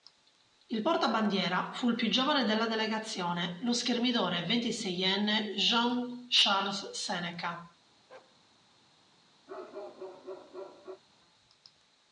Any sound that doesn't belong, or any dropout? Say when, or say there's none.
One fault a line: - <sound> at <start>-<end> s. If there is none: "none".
- bark at 8.1-8.4 s
- bark at 9.5-11.0 s